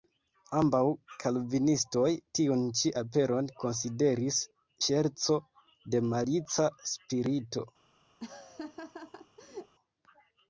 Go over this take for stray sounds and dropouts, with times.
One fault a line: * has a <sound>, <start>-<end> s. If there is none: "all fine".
* has a laugh, 8.2-9.8 s